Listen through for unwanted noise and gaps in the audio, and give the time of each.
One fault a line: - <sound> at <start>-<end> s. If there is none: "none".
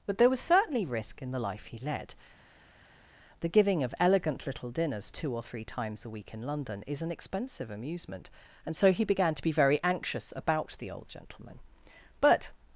none